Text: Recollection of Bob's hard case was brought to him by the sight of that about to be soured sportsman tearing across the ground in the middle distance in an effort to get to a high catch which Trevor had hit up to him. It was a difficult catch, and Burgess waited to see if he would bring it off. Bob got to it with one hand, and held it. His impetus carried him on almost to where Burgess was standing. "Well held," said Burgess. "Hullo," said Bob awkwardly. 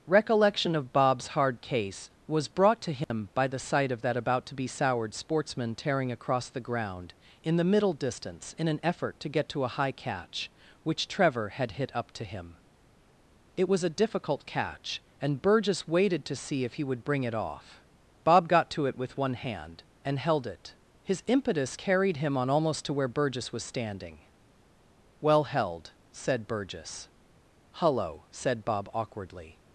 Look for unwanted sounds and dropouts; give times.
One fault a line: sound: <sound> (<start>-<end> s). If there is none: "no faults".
sound: dropout (3.0-3.1 s)